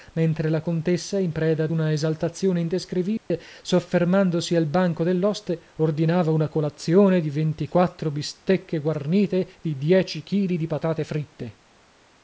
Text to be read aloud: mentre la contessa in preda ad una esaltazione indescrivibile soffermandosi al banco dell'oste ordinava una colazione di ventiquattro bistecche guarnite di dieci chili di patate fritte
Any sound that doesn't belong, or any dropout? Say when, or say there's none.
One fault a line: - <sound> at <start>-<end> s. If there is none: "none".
- dropout at 3.2-3.3 s